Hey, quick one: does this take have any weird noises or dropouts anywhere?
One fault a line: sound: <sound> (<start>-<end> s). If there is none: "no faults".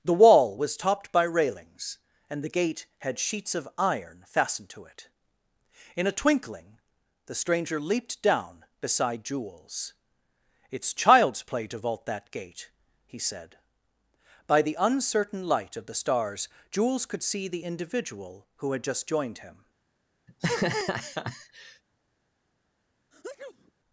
sound: laugh (20.3-21.8 s)
sound: sneeze (23.1-23.7 s)